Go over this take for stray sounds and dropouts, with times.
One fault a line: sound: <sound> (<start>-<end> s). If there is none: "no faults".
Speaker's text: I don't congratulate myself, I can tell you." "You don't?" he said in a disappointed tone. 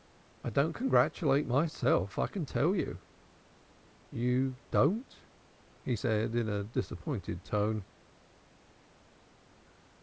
no faults